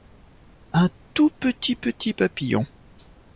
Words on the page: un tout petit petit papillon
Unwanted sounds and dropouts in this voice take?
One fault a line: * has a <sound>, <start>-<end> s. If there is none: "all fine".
all fine